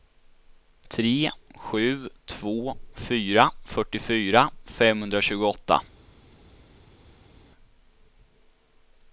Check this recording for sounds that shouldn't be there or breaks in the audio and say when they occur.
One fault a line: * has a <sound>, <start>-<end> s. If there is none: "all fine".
all fine